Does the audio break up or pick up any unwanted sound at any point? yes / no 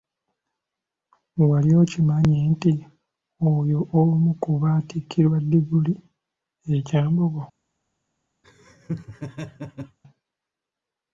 yes